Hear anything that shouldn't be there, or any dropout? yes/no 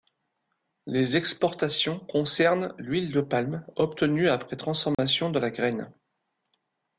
yes